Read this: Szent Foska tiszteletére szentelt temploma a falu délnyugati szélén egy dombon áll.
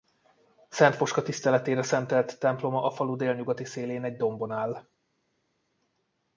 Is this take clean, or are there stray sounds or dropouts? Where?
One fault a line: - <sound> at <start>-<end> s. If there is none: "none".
none